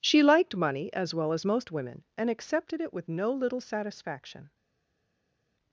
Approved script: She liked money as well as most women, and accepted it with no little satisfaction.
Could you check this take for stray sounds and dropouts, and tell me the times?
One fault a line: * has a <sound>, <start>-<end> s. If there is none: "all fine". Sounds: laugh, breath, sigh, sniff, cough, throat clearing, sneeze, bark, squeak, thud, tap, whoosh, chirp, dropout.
all fine